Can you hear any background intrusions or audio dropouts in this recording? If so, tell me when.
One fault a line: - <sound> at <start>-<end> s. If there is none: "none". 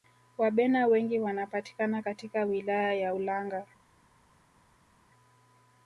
none